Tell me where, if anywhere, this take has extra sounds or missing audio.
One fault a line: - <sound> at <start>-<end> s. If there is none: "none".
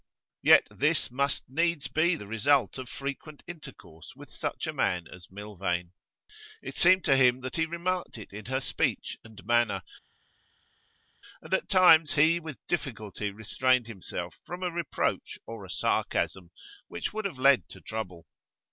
none